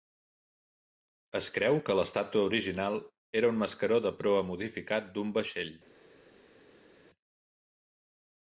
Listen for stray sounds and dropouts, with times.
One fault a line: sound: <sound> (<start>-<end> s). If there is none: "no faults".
no faults